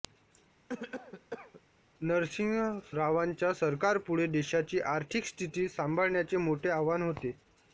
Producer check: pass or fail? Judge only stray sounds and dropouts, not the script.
fail